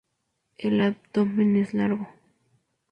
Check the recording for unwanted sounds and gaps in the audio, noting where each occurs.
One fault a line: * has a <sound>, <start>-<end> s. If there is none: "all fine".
all fine